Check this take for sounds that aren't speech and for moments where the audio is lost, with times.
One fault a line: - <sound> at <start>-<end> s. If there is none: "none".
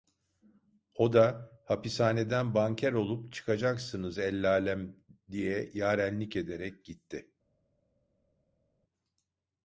none